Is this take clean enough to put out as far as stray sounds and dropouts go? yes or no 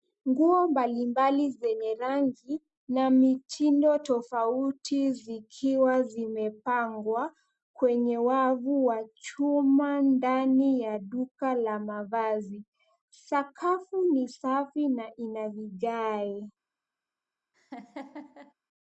no